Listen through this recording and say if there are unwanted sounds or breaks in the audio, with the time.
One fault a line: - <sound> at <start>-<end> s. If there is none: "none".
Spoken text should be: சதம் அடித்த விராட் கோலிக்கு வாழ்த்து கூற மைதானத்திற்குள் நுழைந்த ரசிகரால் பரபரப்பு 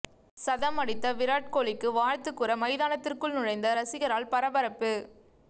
none